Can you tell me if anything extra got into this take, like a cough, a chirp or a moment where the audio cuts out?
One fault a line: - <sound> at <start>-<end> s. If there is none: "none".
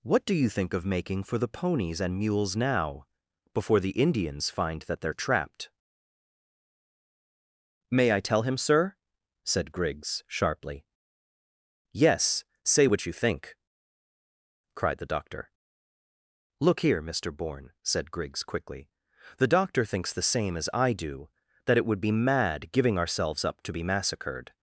none